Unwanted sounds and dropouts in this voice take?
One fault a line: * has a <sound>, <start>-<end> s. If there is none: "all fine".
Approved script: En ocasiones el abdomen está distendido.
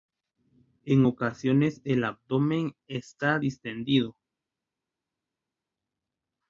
all fine